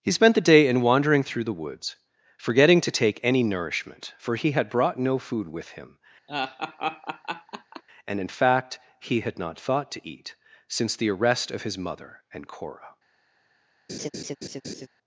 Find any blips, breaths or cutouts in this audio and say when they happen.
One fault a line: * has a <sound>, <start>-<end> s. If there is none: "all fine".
* has a laugh, 6.3-7.8 s
* has a laugh, 13.9-14.9 s